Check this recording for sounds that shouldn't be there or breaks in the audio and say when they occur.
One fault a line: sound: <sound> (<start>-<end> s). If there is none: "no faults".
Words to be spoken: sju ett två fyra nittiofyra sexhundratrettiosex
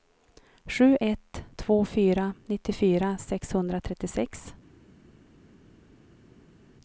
no faults